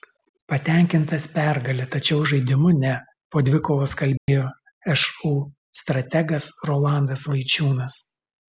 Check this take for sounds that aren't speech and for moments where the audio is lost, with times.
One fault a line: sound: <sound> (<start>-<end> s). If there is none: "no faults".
sound: dropout (4.2-4.3 s)